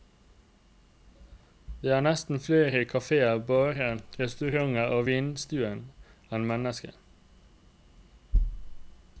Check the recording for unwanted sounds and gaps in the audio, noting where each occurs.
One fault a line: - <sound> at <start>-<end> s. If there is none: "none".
none